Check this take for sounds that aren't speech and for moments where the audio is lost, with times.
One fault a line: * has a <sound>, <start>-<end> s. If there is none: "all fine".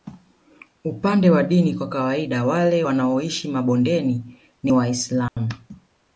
* has a dropout, 5.3-5.4 s